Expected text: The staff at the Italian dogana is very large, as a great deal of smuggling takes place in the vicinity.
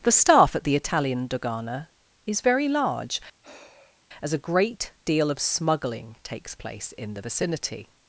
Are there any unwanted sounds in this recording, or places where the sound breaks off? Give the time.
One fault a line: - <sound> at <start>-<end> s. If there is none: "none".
- sigh at 3.4-4.0 s